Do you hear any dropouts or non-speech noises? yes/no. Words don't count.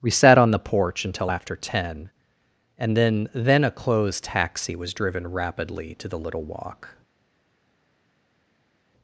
no